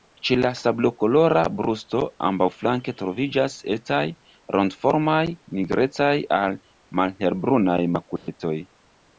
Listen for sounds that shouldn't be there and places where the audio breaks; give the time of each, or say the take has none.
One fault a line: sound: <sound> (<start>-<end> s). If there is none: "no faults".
sound: dropout (8.2-8.3 s)